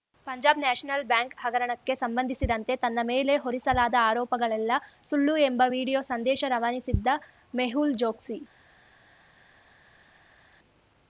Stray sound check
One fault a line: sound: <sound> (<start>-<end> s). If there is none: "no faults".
no faults